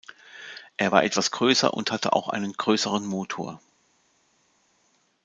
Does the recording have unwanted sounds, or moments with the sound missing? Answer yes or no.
no